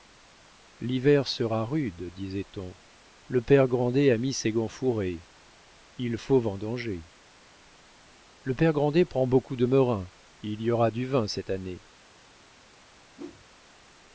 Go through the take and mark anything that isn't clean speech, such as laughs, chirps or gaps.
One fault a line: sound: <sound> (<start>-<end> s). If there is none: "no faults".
sound: whoosh (13.2-13.5 s)